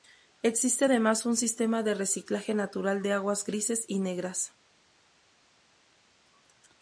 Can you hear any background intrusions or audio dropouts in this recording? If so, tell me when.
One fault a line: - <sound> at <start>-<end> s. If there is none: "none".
none